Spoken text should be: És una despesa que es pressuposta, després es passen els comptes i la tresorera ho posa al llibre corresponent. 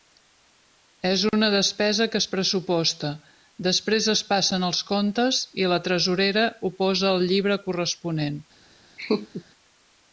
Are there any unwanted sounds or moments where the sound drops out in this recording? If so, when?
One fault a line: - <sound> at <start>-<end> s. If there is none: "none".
- laugh at 9.0-9.4 s